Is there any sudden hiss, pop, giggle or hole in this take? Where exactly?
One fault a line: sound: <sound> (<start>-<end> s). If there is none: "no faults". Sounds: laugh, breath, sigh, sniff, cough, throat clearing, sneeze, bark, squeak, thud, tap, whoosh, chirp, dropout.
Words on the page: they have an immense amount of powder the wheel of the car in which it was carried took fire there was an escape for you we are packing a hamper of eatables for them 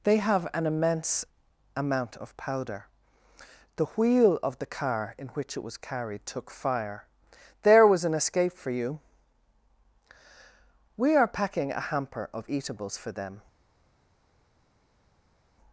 no faults